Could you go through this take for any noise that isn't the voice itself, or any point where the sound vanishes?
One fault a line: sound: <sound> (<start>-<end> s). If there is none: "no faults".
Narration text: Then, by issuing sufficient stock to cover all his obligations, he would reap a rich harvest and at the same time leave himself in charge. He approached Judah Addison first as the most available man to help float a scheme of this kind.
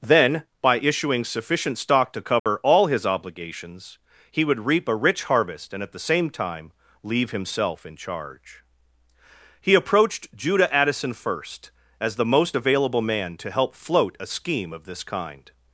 sound: dropout (2.4-2.5 s)